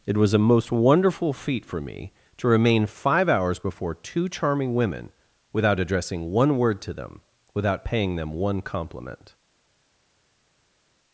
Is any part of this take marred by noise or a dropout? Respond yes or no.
no